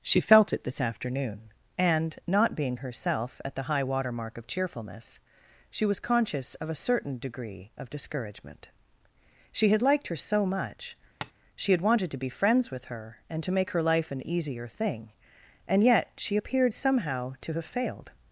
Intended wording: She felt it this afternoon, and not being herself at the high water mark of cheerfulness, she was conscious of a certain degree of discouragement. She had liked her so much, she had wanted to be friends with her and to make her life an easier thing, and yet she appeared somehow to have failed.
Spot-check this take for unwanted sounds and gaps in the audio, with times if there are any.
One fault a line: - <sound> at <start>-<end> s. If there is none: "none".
- tap at 11.2-11.3 s